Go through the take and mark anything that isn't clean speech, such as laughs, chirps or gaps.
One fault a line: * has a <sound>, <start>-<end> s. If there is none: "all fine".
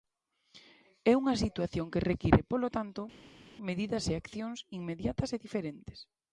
all fine